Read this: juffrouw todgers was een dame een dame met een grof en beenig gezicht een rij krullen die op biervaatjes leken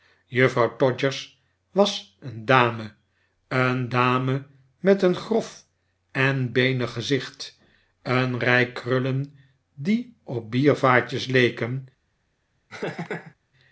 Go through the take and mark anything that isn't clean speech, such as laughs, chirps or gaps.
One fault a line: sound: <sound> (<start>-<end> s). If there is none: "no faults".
sound: laugh (12.7-13.3 s)